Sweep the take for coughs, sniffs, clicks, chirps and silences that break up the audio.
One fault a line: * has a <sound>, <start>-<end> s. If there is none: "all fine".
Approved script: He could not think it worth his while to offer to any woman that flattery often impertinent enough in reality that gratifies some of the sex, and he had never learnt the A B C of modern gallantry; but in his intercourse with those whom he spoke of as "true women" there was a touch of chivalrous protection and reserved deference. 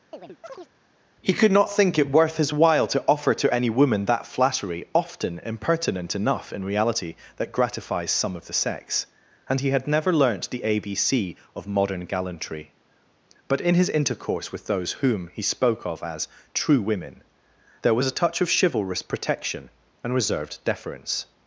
* has a chirp, 0.1-0.7 s